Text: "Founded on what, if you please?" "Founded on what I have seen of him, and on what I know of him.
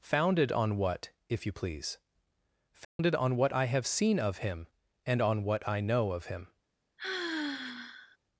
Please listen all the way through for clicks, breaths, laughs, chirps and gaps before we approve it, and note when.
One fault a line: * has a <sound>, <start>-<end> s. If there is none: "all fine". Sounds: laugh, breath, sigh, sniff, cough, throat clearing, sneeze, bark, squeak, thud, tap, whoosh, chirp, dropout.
* has a dropout, 2.8-3.0 s
* has a sigh, 7.0-8.2 s